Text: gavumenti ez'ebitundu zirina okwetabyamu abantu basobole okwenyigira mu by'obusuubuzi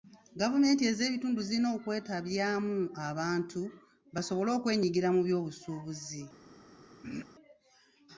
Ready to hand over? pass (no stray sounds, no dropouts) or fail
fail